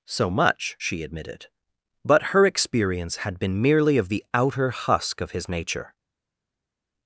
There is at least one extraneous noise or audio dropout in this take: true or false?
false